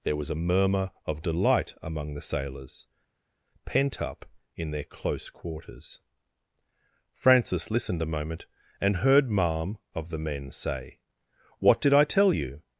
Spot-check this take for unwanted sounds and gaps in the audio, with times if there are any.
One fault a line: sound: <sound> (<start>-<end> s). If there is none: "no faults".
no faults